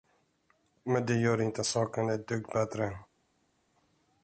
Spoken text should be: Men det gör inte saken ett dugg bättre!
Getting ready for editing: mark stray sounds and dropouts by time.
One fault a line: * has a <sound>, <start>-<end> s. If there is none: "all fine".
all fine